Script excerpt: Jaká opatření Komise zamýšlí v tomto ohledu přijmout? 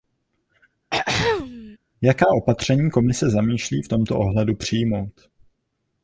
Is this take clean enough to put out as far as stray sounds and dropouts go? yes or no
no